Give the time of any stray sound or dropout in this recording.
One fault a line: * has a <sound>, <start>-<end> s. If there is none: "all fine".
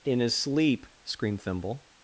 all fine